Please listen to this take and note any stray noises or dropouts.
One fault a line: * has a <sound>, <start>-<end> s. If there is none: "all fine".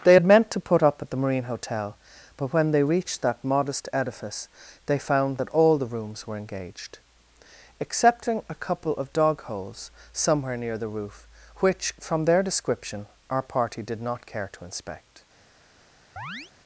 * has a chirp, 16.2-16.5 s